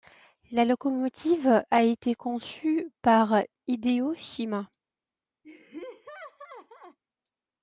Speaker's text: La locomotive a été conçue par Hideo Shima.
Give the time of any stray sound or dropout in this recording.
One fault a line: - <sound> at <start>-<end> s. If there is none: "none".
- laugh at 5.4-7.0 s